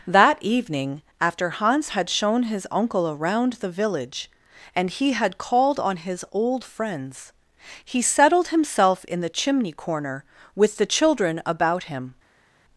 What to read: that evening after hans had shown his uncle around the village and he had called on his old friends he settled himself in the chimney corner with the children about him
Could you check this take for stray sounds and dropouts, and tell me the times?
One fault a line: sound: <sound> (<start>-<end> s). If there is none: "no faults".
no faults